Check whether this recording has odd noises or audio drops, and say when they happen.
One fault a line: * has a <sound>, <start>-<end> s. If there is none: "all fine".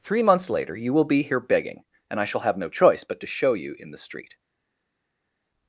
all fine